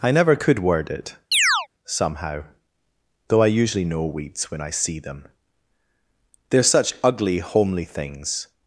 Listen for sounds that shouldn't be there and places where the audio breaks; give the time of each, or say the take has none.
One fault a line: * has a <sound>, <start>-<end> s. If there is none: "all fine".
* has a chirp, 1.3-1.7 s